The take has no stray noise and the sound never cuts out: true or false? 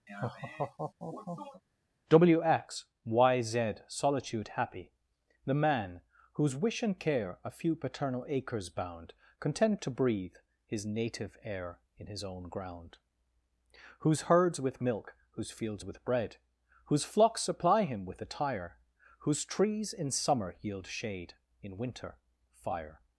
false